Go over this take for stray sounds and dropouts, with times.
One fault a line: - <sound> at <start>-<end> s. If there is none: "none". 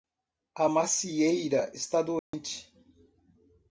- dropout at 2.2-2.3 s